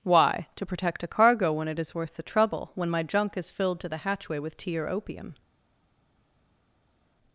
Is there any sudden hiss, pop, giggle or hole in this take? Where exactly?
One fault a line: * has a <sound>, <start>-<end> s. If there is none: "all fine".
all fine